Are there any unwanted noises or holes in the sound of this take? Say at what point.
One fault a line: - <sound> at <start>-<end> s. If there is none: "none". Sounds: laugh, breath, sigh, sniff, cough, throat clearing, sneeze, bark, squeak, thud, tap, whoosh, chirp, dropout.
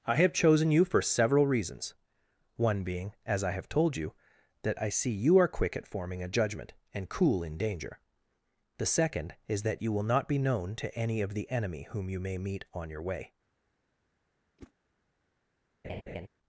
- whoosh at 14.6-14.7 s
- laugh at 15.8-16.3 s